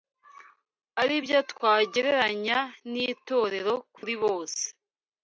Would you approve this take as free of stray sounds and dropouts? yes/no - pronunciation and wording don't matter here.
no